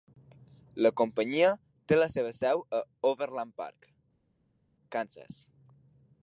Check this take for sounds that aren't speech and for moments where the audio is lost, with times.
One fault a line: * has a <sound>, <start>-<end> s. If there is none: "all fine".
all fine